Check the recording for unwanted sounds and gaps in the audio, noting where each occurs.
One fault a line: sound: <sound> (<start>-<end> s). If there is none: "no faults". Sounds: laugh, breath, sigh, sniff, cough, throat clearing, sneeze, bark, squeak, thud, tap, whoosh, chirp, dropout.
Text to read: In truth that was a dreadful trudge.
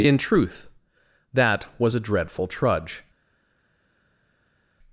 no faults